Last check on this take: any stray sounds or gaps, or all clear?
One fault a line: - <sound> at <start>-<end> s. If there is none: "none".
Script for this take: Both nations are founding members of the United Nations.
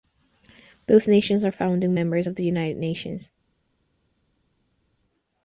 none